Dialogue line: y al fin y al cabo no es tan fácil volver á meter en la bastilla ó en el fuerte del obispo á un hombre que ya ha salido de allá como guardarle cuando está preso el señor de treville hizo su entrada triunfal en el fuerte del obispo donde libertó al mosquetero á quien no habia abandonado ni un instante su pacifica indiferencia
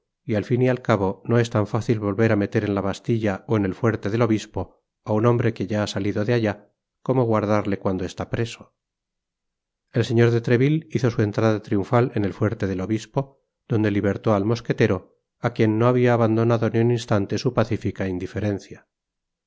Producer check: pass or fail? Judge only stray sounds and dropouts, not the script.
pass